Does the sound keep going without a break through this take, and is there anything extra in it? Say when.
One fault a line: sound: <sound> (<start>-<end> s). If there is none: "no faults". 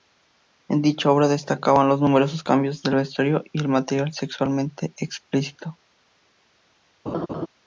sound: laugh (7.1-7.5 s)